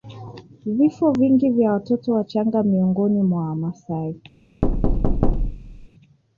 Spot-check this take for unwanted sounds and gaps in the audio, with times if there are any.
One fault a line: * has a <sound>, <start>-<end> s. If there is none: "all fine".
* has a thud, 4.6-5.9 s